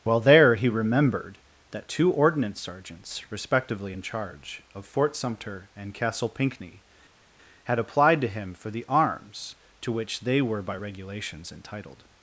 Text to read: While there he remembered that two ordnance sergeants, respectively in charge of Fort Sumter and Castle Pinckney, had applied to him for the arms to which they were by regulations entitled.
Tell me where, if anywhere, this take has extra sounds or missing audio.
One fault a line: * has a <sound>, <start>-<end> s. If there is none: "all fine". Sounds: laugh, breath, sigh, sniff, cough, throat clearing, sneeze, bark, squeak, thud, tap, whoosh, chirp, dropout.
all fine